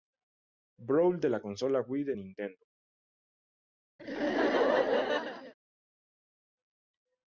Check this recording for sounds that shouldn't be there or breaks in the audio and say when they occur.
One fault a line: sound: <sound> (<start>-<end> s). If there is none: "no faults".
sound: laugh (4.0-5.5 s)